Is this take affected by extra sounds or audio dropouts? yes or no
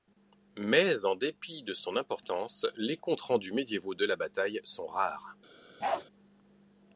yes